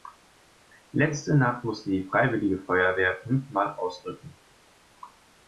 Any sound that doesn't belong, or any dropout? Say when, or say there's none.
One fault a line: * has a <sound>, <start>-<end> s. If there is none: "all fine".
all fine